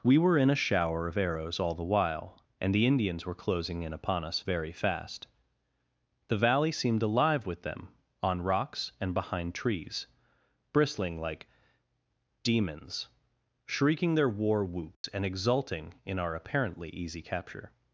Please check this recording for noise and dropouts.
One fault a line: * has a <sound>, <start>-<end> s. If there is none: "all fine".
* has a dropout, 14.9-15.0 s